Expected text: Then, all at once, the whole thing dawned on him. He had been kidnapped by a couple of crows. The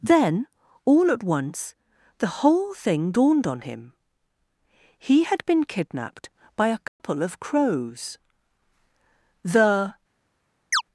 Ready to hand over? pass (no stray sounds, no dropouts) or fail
fail